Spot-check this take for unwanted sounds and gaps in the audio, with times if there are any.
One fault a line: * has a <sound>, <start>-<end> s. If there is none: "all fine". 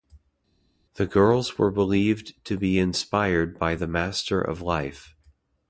all fine